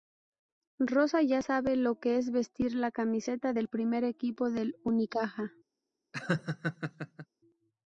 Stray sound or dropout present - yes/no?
yes